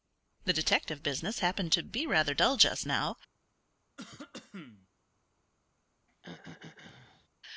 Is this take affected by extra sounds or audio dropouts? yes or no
yes